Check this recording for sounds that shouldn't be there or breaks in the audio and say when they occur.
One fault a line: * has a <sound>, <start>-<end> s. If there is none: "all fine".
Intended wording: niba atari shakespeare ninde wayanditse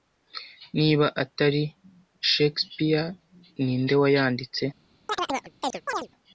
* has a chirp, 5.1-6.1 s